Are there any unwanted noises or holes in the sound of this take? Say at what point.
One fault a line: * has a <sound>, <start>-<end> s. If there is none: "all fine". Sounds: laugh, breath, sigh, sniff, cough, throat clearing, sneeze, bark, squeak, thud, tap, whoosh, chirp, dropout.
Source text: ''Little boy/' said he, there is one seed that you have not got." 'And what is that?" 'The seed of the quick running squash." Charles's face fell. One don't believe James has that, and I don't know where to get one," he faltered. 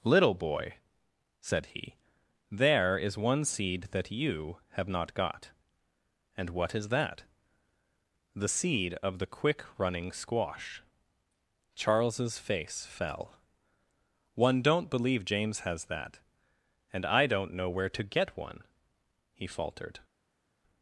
all fine